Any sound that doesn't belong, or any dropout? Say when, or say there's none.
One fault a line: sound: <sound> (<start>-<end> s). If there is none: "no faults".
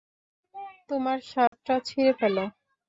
sound: dropout (1.5-1.5 s)